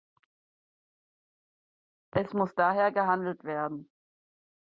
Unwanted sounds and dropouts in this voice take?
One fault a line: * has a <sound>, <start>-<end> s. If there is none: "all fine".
all fine